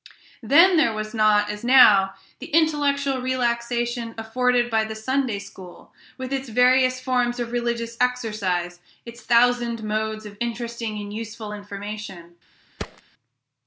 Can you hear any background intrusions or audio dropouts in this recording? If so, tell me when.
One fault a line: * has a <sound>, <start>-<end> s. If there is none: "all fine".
* has a thud, 12.8-13.0 s